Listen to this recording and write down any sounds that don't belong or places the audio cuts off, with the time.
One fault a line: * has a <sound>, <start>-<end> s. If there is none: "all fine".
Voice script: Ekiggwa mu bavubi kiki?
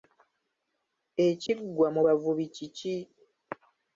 * has a dropout, 1.5-1.5 s